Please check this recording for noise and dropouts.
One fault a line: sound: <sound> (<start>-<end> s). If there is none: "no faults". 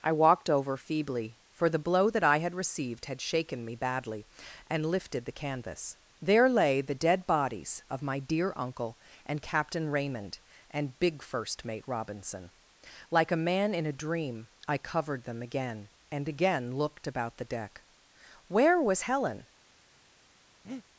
sound: breath (20.6-20.8 s)